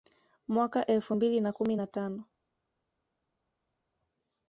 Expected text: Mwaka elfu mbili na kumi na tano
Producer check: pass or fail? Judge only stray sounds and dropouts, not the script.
pass